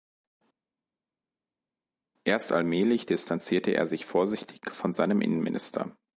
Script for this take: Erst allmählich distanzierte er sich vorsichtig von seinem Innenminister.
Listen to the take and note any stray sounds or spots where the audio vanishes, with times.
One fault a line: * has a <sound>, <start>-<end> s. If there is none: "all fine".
all fine